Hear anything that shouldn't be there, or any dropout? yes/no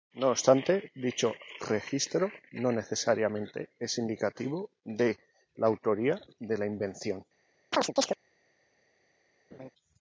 yes